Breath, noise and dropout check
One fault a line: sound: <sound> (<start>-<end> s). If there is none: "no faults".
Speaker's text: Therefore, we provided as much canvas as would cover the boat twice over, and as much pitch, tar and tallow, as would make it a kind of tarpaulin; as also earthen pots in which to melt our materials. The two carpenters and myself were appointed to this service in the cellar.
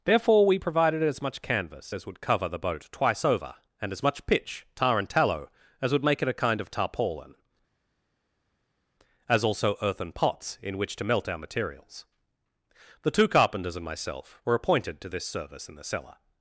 no faults